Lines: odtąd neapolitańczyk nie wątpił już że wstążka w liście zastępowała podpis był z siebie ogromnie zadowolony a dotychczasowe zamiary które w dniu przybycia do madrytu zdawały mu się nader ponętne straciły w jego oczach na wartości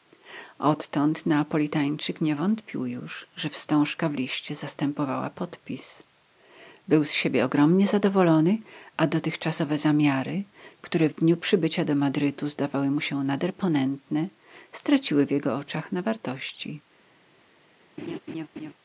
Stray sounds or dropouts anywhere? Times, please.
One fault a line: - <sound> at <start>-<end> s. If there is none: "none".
- laugh at 18.0-18.7 s